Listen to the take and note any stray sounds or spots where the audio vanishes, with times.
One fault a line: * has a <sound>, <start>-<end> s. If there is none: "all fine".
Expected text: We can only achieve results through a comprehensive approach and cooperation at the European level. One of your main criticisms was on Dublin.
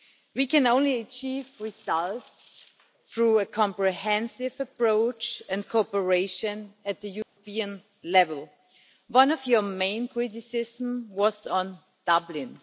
* has a dropout, 7.2-7.4 s